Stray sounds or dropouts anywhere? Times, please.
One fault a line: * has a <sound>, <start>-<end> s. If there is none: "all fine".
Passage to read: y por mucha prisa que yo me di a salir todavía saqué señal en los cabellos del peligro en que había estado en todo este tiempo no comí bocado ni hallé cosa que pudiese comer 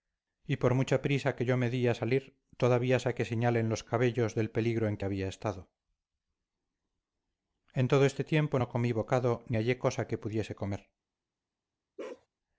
* has a bark, 12.0-12.3 s